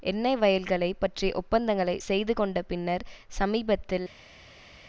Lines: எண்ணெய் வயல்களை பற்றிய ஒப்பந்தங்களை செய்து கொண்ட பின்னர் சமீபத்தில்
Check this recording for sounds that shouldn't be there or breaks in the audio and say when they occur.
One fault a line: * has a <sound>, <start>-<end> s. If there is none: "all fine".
all fine